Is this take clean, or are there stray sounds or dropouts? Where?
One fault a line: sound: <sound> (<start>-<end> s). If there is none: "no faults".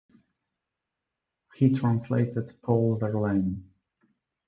no faults